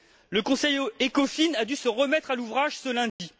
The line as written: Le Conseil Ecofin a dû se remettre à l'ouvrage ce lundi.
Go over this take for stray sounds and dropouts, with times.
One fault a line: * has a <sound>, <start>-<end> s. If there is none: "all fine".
* has a dropout, 3.1-3.2 s